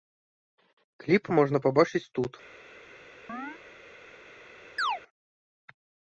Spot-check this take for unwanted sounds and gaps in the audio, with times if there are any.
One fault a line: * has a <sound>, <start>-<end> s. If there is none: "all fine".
* has a chirp, 3.3-3.6 s
* has a chirp, 4.8-5.0 s